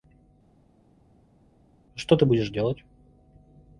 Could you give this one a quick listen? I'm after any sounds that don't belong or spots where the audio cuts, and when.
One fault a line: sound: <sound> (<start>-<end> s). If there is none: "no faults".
no faults